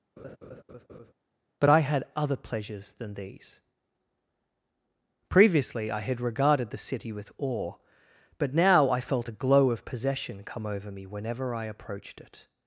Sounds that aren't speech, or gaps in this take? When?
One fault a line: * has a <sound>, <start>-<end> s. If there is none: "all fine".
* has a laugh, 0.2-1.1 s